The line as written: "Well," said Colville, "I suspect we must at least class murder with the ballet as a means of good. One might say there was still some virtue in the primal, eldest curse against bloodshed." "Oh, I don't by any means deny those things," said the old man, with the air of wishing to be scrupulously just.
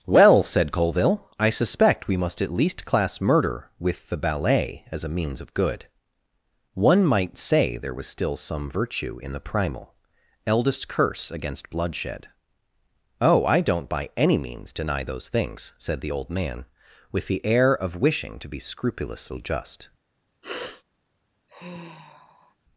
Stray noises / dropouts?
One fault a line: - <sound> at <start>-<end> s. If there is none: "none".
- sniff at 20.4-20.8 s
- sigh at 21.5-22.6 s